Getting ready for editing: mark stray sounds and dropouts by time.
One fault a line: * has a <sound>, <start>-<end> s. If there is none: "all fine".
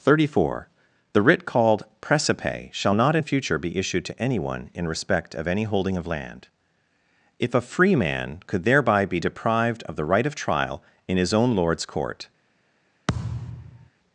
* has a thud, 13.1-13.9 s